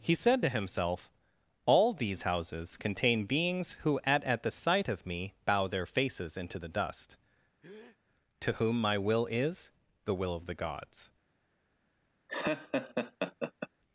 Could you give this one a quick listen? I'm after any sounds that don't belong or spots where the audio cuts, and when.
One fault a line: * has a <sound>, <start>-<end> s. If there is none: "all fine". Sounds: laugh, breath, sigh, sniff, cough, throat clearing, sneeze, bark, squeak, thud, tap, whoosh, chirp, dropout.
* has a breath, 7.6-8.0 s
* has a laugh, 12.3-13.7 s